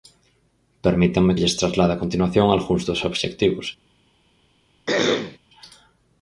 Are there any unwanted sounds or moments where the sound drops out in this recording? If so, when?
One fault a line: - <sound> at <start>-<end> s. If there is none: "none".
- throat clearing at 4.9-5.4 s